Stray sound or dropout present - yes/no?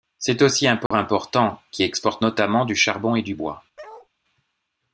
yes